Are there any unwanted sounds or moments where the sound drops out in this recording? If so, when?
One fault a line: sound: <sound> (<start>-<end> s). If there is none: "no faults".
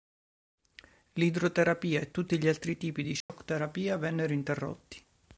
sound: dropout (3.2-3.3 s)